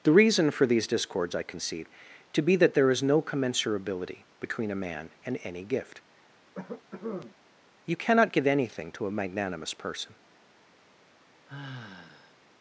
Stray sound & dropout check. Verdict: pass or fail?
fail